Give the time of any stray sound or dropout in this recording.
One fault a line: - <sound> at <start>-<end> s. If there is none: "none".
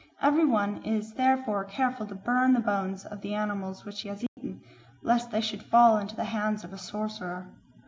- dropout at 4.3-4.4 s